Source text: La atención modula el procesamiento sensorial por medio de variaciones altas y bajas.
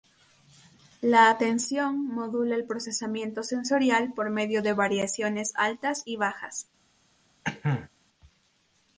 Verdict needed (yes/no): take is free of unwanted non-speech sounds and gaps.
no